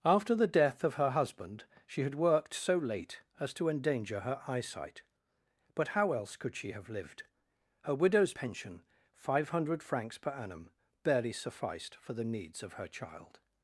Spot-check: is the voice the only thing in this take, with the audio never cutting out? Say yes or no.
yes